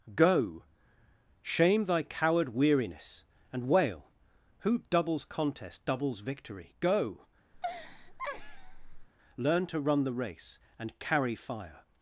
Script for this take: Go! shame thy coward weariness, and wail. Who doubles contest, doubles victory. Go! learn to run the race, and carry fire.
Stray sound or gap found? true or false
true